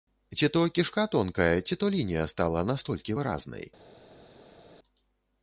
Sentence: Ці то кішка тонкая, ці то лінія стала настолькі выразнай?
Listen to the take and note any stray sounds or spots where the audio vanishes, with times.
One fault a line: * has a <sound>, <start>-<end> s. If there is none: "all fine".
all fine